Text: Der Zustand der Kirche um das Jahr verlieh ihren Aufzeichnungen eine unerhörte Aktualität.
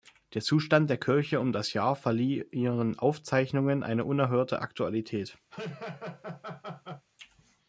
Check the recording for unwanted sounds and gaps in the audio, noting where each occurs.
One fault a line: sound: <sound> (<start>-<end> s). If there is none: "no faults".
sound: laugh (5.5-7.1 s)